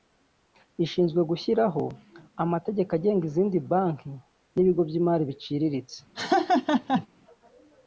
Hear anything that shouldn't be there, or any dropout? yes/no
yes